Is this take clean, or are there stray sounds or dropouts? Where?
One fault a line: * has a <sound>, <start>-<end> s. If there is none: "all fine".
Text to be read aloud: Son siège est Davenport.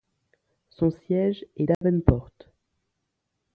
* has a dropout, 1.7-1.8 s